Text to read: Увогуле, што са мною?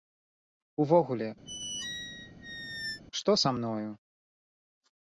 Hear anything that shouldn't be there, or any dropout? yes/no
yes